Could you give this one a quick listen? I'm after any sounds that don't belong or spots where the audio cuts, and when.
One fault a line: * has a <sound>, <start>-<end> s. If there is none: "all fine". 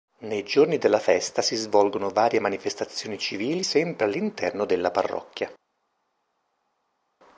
all fine